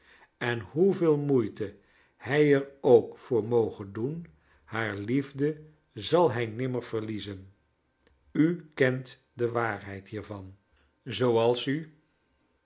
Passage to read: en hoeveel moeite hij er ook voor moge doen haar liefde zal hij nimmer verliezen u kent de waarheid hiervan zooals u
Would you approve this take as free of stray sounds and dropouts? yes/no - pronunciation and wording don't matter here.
yes